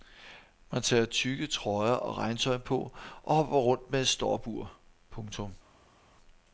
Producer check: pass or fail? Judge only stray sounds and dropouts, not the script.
pass